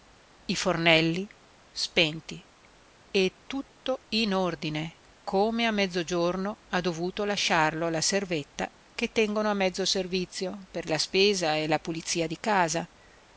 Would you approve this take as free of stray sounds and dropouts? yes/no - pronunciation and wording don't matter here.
yes